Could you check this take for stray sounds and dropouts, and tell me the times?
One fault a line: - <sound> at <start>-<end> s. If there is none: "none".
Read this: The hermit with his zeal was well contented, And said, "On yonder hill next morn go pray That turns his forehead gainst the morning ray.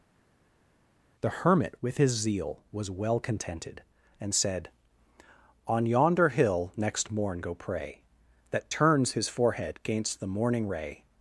none